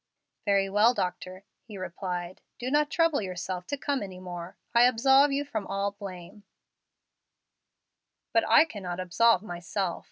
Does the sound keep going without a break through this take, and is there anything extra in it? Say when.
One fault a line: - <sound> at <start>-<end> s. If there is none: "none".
none